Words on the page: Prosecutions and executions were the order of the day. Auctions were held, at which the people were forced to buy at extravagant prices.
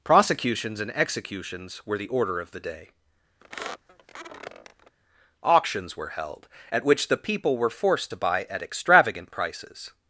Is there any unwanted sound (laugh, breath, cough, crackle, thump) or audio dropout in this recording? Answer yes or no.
yes